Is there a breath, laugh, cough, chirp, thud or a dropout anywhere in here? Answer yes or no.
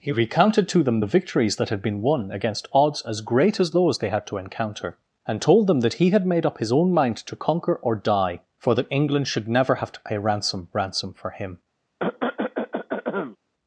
yes